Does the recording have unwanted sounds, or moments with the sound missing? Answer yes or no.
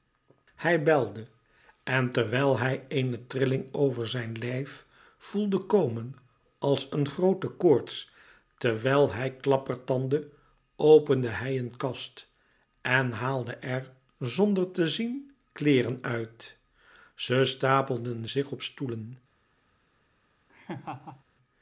yes